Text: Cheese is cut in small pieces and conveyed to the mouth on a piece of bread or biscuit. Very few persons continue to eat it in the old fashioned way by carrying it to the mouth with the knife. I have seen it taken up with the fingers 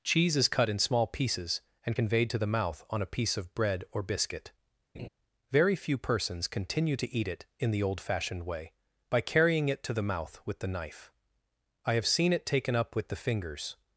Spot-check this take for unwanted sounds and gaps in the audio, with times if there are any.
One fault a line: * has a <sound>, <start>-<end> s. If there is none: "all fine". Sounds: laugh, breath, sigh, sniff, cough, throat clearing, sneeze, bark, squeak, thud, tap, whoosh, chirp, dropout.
* has a laugh, 4.9-5.1 s